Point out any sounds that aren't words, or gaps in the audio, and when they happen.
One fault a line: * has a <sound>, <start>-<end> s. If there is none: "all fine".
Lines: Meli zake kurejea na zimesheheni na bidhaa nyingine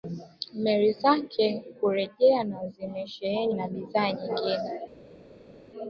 all fine